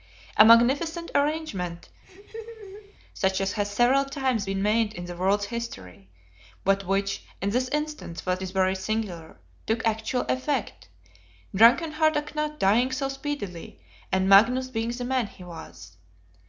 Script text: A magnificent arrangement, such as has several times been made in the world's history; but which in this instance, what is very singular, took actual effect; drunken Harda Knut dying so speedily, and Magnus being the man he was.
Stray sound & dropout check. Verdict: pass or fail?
fail